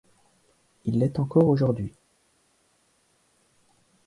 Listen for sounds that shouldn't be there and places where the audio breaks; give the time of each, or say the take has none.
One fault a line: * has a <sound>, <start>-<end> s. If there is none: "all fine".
all fine